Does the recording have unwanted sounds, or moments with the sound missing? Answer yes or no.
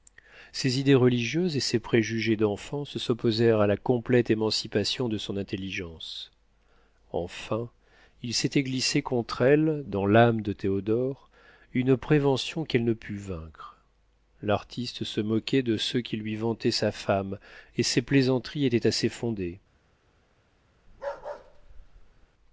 yes